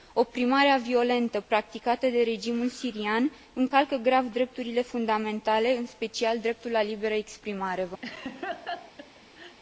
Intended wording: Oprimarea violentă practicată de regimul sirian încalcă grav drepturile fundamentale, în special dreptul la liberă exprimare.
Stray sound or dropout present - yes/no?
yes